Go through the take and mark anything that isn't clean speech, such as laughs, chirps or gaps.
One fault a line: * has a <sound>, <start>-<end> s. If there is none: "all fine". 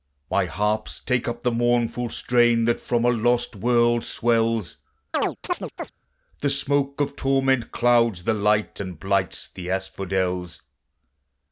* has a chirp, 5.1-5.9 s